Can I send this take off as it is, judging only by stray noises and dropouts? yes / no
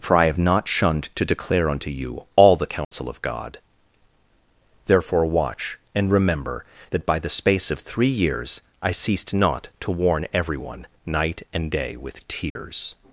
no